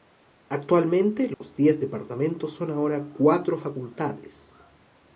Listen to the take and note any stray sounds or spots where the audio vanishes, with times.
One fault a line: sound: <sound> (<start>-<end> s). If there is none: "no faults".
sound: dropout (1.3-1.4 s)